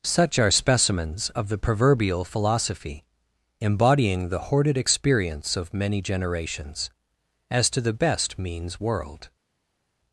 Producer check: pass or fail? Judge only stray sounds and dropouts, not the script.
pass